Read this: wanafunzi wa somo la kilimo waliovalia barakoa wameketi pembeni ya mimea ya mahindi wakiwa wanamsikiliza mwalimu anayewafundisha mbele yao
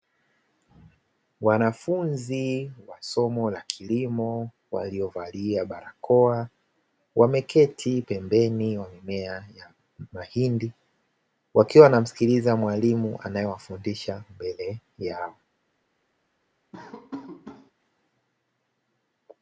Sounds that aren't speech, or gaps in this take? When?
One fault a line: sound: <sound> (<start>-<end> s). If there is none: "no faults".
sound: laugh (16.7-17.7 s)